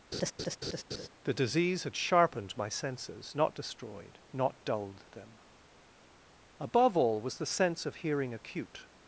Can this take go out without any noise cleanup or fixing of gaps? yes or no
no